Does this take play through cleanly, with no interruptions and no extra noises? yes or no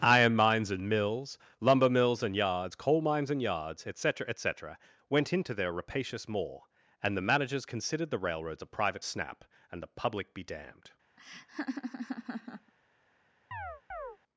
no